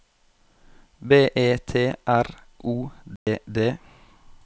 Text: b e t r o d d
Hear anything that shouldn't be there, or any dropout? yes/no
yes